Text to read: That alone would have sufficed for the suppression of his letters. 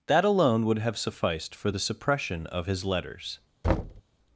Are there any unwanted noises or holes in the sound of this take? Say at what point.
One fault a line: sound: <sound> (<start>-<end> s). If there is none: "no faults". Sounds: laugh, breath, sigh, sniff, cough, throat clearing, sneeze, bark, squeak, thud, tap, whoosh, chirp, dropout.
sound: thud (3.6-4.0 s)